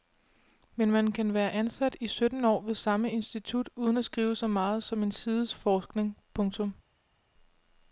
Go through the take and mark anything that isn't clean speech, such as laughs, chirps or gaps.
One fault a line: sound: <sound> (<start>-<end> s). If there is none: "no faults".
no faults